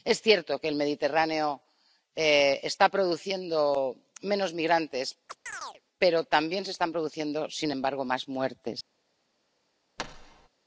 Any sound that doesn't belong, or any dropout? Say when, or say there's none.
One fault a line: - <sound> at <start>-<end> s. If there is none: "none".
- chirp at 5.3-5.8 s
- thud at 10.0-10.5 s